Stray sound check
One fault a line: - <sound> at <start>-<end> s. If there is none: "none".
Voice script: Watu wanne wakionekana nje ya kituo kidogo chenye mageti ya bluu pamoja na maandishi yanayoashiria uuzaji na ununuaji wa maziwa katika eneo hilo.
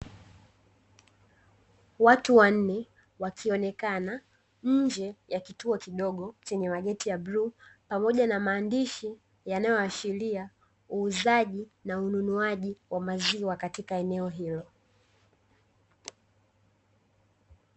none